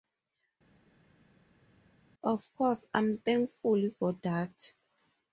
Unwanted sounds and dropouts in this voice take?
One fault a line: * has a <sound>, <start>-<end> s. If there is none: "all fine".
all fine